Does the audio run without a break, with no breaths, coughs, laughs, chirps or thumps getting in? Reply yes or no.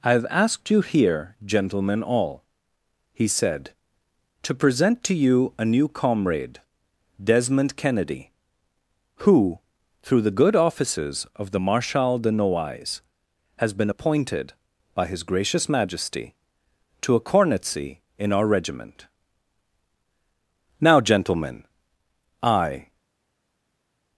yes